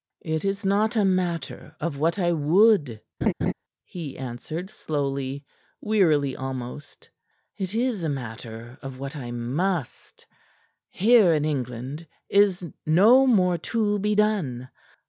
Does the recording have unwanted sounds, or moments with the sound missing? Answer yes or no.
yes